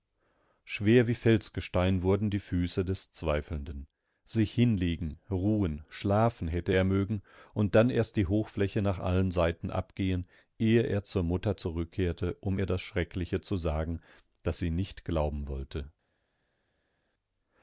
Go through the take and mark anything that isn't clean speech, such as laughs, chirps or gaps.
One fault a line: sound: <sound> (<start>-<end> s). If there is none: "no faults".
no faults